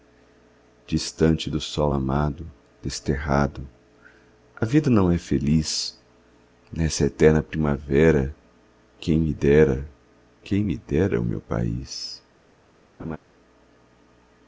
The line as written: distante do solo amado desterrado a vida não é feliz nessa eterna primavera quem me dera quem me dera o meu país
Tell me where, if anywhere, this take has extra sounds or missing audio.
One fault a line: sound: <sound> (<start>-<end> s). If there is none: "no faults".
sound: laugh (13.0-13.2 s)